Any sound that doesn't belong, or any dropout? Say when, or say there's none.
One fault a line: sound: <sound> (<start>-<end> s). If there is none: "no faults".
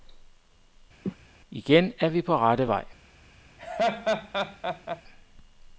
sound: cough (1.0-1.2 s)
sound: laugh (3.6-5.0 s)